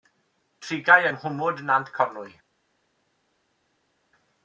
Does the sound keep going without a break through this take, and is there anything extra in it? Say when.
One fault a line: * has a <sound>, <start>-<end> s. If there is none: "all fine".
all fine